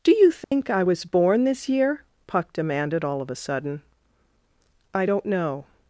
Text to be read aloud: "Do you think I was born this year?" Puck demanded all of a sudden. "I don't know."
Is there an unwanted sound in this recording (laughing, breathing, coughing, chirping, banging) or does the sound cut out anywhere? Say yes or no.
yes